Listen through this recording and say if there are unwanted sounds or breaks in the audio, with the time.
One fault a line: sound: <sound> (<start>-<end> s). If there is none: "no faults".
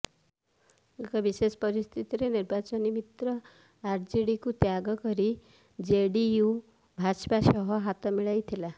no faults